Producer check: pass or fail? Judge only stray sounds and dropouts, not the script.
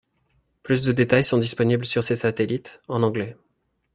pass